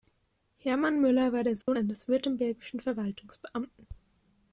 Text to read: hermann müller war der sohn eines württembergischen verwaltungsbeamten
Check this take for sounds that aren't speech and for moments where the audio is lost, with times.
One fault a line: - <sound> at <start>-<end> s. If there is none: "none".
- dropout at 1.6-1.7 s